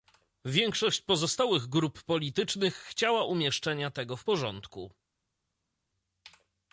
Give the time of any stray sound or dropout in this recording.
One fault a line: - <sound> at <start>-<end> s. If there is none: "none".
none